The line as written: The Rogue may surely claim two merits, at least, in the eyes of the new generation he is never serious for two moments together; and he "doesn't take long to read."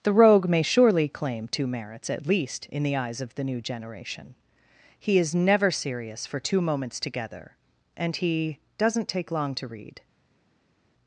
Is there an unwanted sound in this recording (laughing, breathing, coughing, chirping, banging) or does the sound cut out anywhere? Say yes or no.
no